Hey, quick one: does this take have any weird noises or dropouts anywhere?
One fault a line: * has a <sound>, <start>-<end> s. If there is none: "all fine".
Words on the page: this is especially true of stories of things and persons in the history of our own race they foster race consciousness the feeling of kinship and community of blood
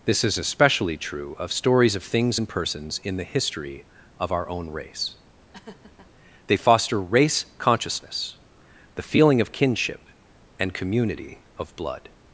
* has a laugh, 5.5-6.1 s